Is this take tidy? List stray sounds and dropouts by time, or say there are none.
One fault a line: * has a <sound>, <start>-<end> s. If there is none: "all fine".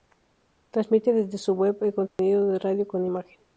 * has a dropout, 2.1-2.2 s